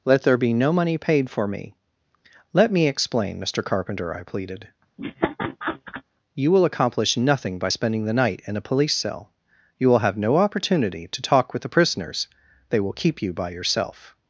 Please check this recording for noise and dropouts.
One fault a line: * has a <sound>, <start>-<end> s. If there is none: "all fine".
* has a laugh, 5.0-6.0 s